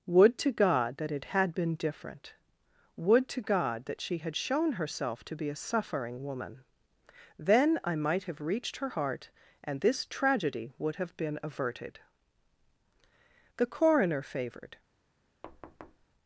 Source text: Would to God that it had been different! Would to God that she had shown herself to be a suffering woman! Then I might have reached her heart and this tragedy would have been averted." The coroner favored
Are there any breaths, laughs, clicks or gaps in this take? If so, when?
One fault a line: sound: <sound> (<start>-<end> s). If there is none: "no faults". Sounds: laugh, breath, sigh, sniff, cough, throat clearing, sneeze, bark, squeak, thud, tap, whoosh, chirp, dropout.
sound: thud (15.4-16.1 s)